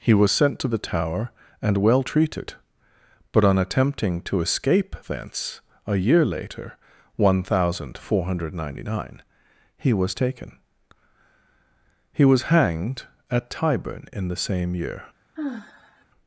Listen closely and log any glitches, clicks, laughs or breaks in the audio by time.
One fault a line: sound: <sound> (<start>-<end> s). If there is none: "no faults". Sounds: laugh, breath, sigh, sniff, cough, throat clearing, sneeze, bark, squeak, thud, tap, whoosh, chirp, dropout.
sound: sigh (15.4-16.1 s)